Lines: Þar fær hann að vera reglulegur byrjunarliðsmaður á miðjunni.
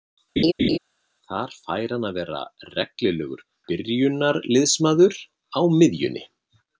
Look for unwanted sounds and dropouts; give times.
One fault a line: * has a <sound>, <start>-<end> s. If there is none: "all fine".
* has a laugh, 0.4-0.8 s